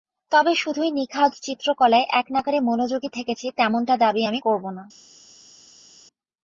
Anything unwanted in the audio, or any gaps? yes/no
no